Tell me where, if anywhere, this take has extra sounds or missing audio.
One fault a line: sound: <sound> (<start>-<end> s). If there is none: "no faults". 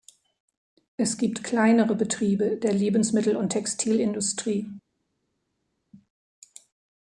no faults